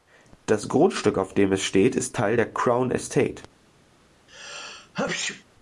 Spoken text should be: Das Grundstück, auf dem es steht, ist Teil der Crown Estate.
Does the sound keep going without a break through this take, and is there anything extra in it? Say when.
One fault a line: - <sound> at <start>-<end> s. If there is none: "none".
- sneeze at 4.3-5.4 s